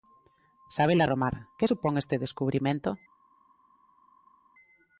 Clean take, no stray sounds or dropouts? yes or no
yes